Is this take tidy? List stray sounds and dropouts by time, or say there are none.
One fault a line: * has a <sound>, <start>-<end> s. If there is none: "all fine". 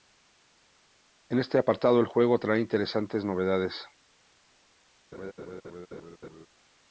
* has a laugh, 5.1-6.5 s